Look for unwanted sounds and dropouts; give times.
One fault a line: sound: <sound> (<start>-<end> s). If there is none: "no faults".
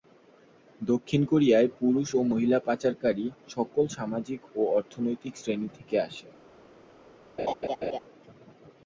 sound: laugh (7.4-8.0 s)